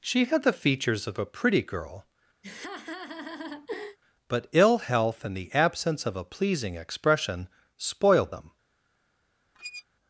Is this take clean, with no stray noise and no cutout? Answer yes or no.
no